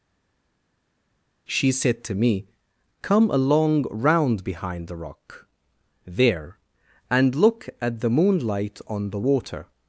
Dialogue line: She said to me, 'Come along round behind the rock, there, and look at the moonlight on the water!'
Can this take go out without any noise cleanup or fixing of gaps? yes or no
yes